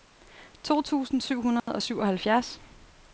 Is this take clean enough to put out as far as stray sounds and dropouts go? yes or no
no